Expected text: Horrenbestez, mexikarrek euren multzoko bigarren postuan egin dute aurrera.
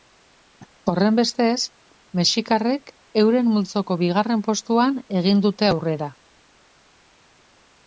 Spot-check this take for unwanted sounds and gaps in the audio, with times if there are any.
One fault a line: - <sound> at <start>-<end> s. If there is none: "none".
none